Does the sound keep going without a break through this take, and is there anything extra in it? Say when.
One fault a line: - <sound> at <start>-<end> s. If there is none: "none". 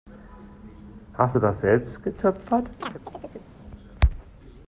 - chirp at 2.8-3.5 s